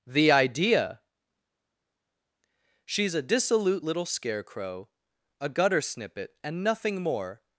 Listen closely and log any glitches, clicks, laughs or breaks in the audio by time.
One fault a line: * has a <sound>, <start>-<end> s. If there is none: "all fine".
all fine